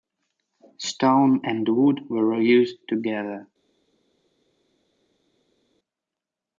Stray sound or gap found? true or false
false